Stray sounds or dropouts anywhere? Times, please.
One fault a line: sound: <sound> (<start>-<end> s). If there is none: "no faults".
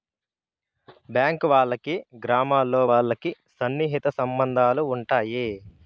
no faults